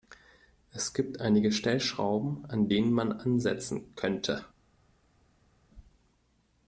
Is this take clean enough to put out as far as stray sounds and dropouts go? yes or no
yes